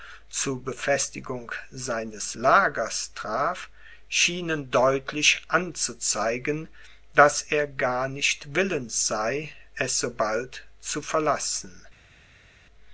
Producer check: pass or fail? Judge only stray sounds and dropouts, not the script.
pass